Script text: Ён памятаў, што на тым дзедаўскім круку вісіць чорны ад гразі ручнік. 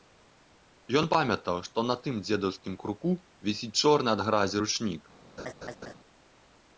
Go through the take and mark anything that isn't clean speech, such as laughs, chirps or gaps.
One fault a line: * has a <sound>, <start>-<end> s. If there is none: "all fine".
* has a laugh, 5.4-5.9 s